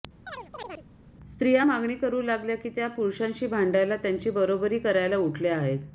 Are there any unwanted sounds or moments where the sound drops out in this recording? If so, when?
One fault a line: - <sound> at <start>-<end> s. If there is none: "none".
- chirp at 0.3-0.9 s